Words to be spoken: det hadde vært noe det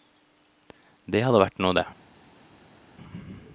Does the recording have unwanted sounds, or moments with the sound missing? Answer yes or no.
no